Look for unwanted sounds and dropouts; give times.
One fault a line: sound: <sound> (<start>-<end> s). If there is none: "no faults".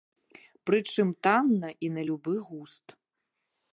no faults